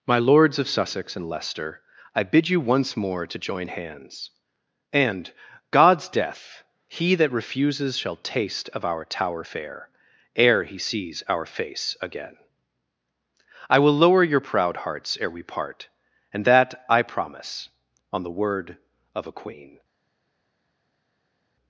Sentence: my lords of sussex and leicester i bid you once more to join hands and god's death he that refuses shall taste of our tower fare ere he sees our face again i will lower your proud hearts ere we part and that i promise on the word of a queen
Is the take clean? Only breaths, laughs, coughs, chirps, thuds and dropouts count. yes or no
yes